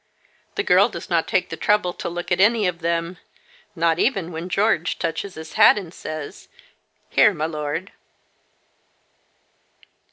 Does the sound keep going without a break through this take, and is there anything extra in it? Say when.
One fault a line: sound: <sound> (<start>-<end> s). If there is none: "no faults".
no faults